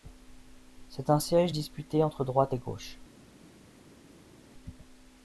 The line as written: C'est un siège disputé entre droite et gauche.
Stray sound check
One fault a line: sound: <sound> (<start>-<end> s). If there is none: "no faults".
no faults